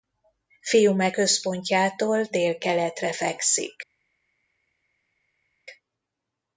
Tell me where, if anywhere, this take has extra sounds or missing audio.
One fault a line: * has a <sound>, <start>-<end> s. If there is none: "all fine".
all fine